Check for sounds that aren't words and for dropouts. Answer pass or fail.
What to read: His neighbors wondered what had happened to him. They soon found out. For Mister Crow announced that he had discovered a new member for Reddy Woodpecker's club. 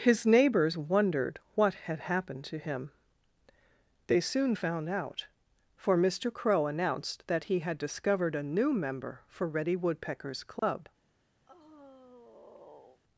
fail